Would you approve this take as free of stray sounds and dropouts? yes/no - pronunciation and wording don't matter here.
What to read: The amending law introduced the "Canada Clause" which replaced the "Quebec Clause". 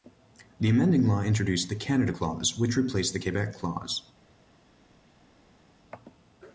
yes